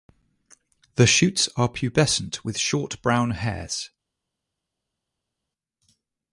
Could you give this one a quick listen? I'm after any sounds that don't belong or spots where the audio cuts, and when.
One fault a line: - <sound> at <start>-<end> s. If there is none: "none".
none